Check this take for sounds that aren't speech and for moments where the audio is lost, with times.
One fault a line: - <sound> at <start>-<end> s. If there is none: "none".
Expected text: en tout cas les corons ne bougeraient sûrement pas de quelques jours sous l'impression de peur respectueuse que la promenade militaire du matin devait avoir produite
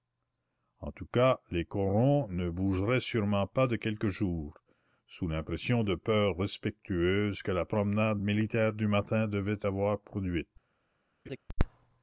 - laugh at 11.3-11.4 s